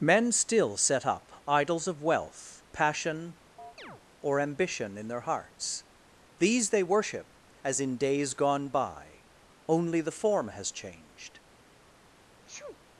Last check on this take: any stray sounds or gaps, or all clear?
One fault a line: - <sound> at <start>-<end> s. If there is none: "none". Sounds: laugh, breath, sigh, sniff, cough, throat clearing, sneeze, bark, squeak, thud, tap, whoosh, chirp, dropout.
- chirp at 3.6-4.0 s
- sneeze at 12.4-12.8 s